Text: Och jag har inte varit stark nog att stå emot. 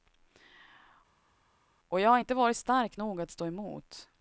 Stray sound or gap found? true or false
false